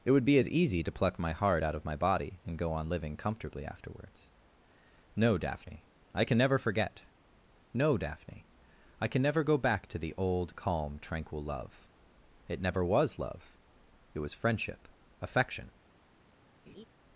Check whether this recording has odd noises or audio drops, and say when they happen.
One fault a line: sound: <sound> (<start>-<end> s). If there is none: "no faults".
sound: laugh (16.7-16.9 s)